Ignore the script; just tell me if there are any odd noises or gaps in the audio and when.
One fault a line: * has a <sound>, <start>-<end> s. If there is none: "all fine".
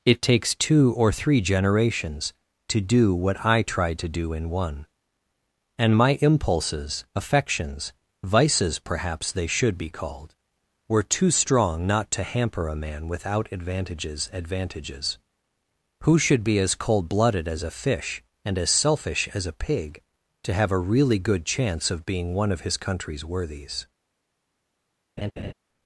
* has a laugh, 25.2-25.5 s